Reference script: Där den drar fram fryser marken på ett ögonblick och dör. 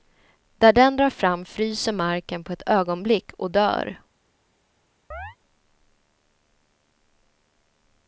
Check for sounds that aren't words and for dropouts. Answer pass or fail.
fail